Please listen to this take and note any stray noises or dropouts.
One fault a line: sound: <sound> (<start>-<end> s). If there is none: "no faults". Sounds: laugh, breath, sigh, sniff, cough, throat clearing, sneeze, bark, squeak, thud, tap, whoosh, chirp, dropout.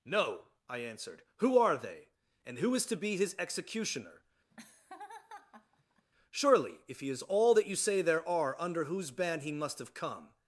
sound: laugh (4.5-6.1 s)